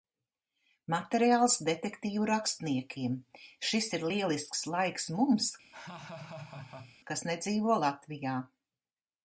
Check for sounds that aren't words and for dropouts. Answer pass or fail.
fail